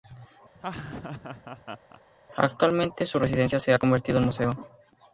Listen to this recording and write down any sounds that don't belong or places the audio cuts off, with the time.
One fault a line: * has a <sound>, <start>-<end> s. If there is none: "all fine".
* has a laugh, 0.5-2.0 s